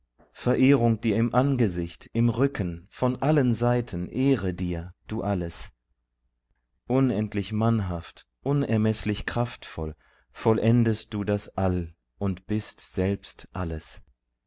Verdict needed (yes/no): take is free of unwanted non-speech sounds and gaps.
yes